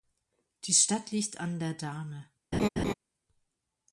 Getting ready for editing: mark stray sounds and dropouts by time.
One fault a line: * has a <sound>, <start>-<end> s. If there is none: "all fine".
* has a laugh, 2.5-2.9 s